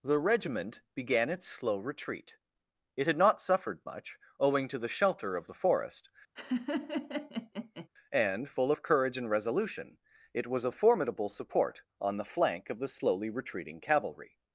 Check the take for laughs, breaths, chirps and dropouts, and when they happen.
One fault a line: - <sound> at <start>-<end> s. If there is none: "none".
- laugh at 6.4-7.9 s